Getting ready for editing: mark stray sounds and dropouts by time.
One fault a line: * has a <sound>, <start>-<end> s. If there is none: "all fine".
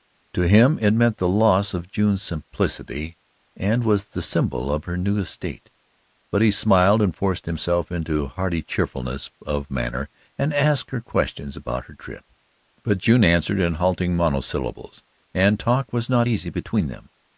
all fine